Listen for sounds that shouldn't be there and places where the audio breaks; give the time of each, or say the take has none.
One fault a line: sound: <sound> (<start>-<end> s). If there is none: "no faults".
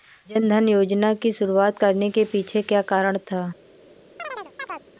sound: chirp (4.2-4.8 s)